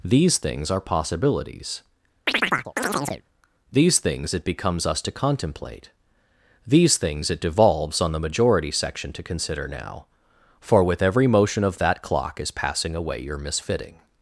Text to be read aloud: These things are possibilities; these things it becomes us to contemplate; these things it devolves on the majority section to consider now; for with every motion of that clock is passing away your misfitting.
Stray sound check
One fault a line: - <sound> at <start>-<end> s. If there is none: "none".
- chirp at 2.3-3.2 s